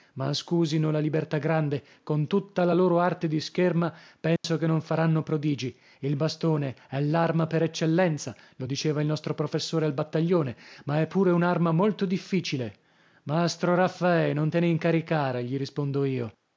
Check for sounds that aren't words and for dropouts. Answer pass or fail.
fail